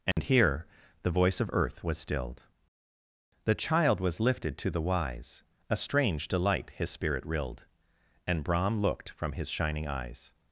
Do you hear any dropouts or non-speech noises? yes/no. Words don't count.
yes